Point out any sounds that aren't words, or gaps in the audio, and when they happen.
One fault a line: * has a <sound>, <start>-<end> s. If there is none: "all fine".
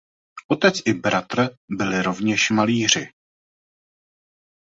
all fine